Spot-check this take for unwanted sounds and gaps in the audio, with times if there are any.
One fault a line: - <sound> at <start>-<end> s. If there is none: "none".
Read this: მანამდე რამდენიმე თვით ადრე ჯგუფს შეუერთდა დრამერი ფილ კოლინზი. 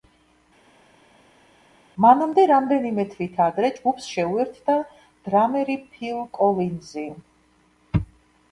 none